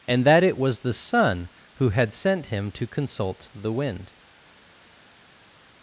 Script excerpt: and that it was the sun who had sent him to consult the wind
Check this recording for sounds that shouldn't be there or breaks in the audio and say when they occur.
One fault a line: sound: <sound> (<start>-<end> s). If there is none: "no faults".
no faults